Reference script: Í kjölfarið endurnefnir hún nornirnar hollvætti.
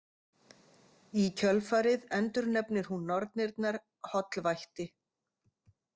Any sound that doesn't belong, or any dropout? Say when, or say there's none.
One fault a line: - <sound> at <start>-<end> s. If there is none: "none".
none